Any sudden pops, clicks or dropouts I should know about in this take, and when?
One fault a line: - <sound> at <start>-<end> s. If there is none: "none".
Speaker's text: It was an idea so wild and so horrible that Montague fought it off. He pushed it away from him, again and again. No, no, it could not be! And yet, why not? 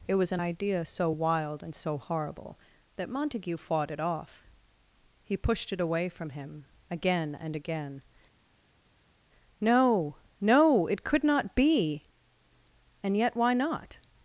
none